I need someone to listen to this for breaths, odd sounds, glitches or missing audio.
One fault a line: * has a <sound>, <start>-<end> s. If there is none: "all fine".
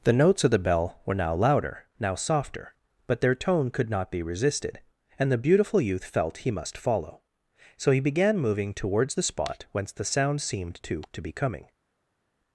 all fine